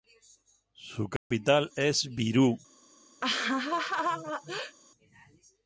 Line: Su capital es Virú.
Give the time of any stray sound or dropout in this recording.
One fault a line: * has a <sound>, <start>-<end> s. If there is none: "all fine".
* has a dropout, 1.2-1.3 s
* has a laugh, 3.2-4.8 s